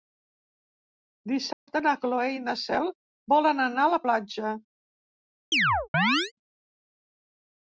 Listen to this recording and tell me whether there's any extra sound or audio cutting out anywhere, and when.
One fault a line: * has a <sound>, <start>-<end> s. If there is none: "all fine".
* has a dropout, 1.5-1.7 s
* has a chirp, 5.5-6.3 s